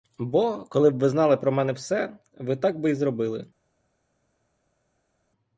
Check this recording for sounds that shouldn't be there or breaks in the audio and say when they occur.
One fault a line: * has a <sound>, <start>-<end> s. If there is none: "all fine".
all fine